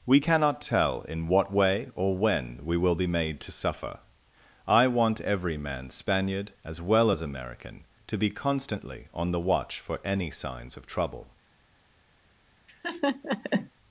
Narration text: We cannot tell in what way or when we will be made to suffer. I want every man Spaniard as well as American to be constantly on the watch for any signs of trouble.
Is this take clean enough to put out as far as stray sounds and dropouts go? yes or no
no